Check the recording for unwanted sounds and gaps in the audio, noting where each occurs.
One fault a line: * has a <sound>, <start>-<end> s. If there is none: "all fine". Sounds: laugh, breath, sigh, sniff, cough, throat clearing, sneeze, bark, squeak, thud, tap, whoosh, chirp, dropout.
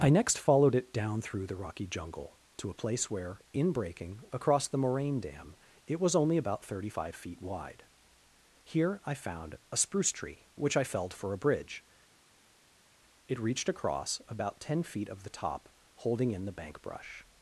all fine